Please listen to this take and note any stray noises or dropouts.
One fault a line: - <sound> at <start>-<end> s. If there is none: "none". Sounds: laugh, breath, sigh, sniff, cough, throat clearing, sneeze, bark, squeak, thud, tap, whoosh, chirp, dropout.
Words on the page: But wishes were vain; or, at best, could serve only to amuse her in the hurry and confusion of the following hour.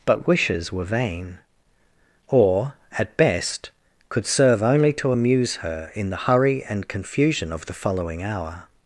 none